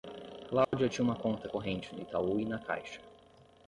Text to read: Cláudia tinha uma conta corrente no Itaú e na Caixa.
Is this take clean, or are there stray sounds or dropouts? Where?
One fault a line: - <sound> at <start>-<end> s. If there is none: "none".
- dropout at 0.6-0.7 s